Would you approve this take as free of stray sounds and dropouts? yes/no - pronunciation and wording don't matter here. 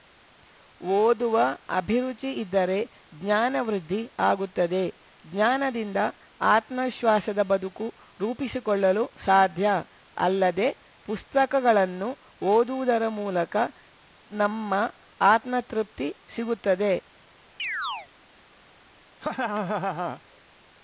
no